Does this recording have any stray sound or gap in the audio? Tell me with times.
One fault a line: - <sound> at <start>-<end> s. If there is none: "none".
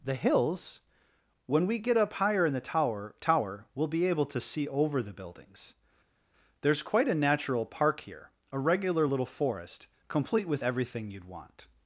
none